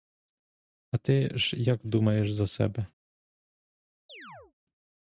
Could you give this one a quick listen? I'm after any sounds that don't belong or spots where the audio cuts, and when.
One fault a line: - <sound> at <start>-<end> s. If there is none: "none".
- chirp at 4.1-4.5 s